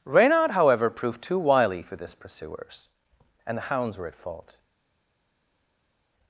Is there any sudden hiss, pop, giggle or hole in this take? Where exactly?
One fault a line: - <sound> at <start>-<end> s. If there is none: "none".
none